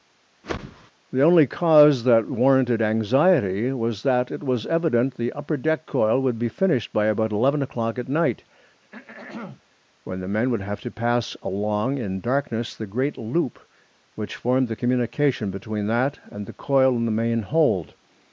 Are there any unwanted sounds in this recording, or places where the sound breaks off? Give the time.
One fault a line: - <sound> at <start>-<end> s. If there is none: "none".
- whoosh at 0.4-0.9 s
- throat clearing at 8.8-9.6 s